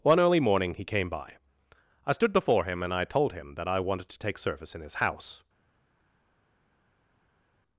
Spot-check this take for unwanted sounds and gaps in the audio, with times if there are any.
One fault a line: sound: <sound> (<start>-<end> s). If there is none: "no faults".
no faults